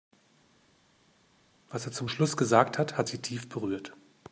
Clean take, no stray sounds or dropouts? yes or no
yes